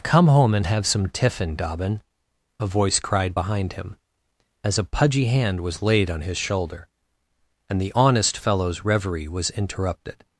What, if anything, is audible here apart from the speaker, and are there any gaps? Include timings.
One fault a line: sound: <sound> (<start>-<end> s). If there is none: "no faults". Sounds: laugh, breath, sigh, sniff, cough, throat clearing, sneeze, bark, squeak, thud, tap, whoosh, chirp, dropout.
no faults